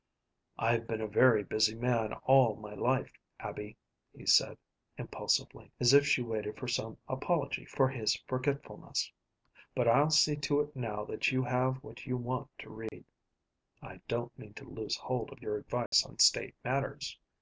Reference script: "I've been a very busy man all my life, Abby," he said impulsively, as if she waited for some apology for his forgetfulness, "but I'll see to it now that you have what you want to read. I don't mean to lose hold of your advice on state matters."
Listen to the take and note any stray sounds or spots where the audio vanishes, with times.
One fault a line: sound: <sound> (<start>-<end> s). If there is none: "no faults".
sound: dropout (12.9-12.9 s)
sound: dropout (15.9-15.9 s)